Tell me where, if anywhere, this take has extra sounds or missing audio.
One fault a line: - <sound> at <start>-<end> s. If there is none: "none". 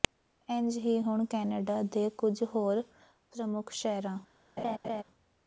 - laugh at 4.6-5.0 s